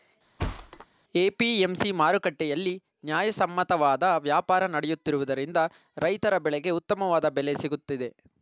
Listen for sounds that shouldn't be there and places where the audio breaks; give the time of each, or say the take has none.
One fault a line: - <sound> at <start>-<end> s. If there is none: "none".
- thud at 0.4-0.9 s